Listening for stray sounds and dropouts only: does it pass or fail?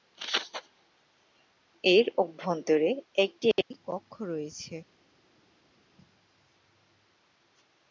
pass